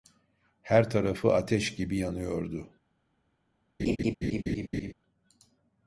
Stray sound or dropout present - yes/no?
yes